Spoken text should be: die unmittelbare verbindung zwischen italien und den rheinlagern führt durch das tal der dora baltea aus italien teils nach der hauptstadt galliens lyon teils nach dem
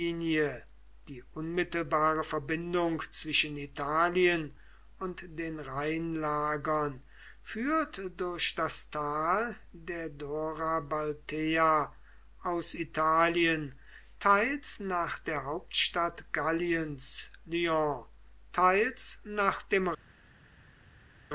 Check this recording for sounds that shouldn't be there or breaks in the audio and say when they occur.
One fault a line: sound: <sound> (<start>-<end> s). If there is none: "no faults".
no faults